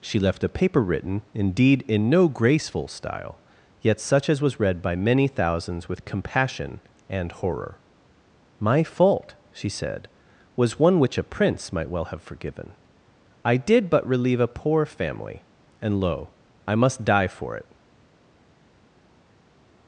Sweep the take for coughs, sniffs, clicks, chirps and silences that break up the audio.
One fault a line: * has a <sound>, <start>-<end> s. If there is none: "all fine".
all fine